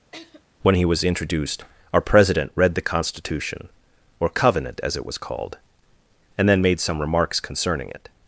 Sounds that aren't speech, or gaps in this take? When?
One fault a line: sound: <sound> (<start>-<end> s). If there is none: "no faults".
sound: laugh (0.1-0.4 s)